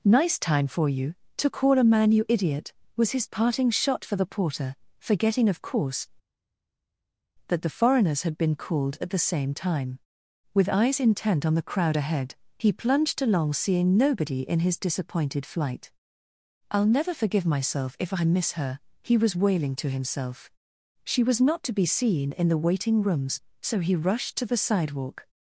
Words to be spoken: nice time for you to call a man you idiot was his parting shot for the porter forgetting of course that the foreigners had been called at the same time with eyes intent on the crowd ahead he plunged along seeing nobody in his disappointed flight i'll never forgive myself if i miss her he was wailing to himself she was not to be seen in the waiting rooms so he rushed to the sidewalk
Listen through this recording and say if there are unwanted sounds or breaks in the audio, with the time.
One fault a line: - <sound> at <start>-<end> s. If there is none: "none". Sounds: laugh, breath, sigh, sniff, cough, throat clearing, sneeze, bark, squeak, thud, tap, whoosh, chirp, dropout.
none